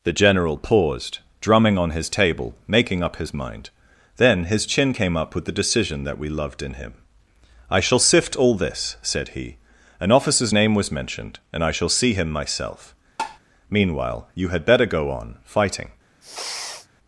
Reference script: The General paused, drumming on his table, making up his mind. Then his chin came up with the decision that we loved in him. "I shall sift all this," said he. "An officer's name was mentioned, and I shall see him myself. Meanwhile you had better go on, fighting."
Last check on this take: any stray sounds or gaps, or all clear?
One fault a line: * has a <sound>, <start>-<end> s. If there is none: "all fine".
* has a tap, 13.2-13.4 s
* has a sniff, 16.2-16.9 s